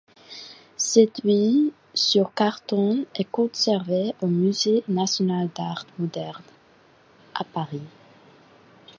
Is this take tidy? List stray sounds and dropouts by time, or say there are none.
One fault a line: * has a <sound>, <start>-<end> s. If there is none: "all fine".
all fine